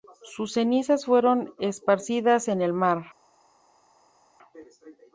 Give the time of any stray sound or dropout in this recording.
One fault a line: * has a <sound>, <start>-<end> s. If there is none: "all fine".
all fine